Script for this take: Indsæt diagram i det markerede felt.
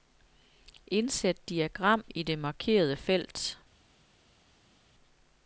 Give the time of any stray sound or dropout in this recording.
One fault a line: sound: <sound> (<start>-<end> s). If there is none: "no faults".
no faults